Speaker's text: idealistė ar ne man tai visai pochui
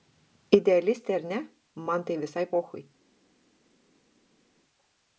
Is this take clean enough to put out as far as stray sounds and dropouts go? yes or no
yes